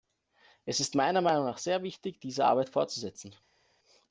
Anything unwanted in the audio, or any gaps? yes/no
no